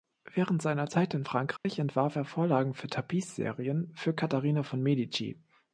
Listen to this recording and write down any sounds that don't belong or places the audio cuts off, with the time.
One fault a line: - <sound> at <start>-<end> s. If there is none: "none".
- dropout at 1.6-1.6 s